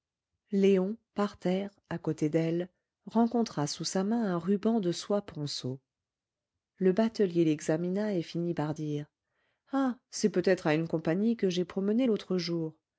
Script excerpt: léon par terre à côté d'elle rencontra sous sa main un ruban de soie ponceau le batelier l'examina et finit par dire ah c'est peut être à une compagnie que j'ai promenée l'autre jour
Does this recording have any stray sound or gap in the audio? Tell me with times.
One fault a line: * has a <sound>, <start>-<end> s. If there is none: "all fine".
all fine